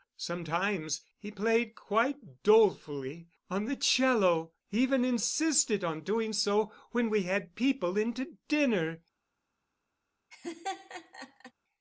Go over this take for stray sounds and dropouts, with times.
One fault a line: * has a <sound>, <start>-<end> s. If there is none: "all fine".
* has a laugh, 10.3-11.5 s